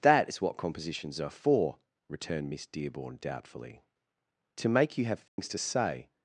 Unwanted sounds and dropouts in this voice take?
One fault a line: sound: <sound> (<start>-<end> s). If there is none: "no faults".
sound: dropout (5.3-5.4 s)